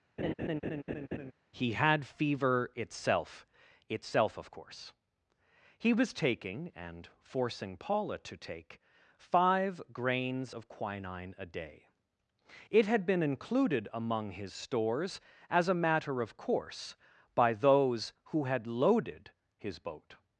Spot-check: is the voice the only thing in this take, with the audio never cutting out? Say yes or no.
no